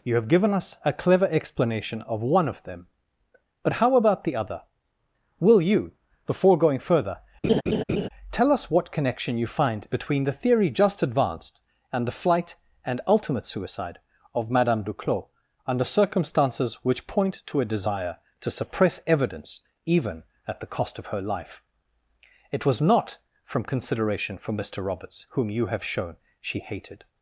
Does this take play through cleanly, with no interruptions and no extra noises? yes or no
no